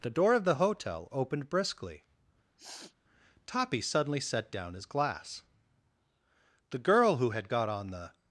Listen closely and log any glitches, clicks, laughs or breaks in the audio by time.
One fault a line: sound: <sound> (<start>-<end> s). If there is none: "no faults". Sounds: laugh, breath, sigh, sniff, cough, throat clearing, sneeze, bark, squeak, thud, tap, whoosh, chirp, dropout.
sound: sniff (2.6-2.9 s)